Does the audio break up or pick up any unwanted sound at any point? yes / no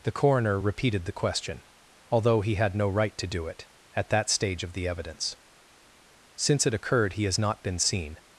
no